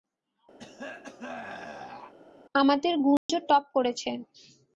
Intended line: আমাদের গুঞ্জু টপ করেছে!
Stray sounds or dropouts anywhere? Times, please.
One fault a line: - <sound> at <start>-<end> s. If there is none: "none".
- throat clearing at 0.6-2.1 s
- dropout at 3.2-3.3 s